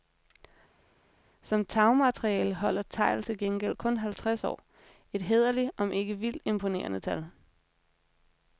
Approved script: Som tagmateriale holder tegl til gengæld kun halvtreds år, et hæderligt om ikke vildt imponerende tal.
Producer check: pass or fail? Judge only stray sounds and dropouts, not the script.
pass